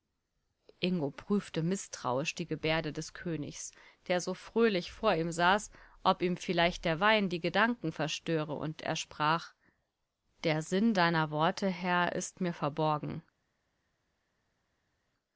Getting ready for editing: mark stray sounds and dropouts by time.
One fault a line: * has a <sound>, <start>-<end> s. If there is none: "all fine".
all fine